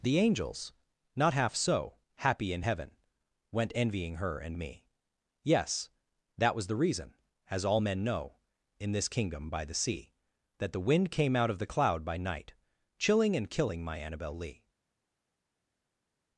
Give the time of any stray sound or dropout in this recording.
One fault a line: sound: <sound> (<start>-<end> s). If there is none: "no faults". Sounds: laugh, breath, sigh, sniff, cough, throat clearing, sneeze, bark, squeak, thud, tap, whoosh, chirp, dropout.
no faults